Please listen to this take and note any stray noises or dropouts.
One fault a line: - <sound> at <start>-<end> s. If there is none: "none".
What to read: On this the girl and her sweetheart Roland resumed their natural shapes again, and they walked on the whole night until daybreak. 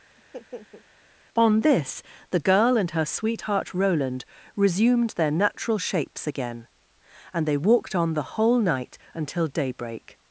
- laugh at 0.2-0.9 s